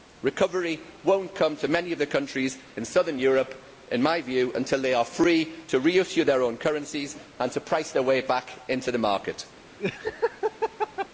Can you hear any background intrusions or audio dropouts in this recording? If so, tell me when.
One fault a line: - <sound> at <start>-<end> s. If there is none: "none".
- laugh at 9.8-11.1 s